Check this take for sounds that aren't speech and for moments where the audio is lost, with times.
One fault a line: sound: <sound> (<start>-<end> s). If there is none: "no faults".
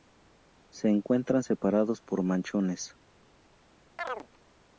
sound: chirp (4.0-4.3 s)